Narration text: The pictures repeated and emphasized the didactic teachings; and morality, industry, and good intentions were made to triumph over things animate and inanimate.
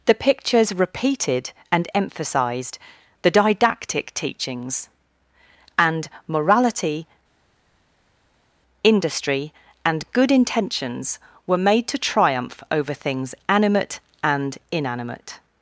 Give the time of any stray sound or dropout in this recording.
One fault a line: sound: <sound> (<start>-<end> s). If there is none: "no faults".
no faults